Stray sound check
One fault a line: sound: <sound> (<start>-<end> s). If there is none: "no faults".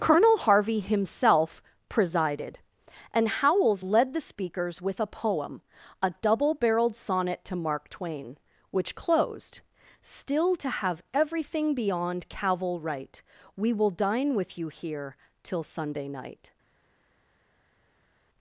no faults